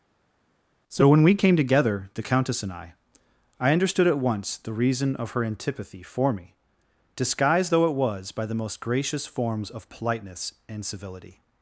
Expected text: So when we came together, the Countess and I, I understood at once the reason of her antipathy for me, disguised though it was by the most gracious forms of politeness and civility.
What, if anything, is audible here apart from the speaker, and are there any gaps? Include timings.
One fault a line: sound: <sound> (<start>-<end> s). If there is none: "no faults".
no faults